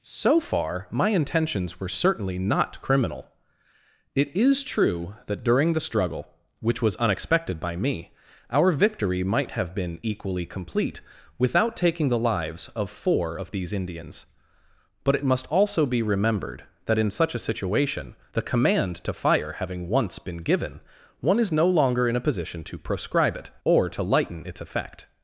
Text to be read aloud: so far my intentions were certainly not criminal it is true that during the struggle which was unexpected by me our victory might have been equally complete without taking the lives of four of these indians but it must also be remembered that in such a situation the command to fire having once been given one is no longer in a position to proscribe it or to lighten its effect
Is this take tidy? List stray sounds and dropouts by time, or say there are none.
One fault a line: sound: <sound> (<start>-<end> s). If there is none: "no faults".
no faults